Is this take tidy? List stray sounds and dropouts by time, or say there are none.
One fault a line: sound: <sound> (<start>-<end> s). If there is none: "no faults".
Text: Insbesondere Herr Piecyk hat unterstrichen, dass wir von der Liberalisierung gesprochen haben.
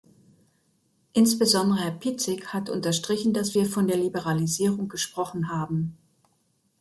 no faults